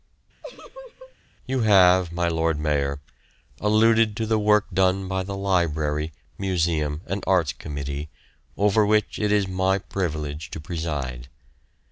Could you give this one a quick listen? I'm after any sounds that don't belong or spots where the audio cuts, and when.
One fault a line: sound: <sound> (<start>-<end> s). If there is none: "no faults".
sound: laugh (0.4-1.1 s)